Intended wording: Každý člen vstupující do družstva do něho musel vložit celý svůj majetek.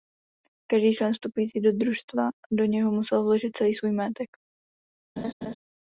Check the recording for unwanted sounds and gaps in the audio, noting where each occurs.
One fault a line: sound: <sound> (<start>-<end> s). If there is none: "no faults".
sound: laugh (5.2-5.5 s)